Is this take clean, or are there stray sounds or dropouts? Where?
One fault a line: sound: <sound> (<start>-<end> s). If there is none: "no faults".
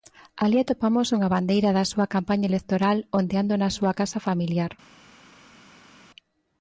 no faults